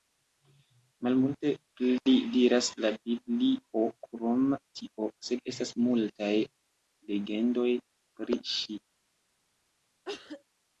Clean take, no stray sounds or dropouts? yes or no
no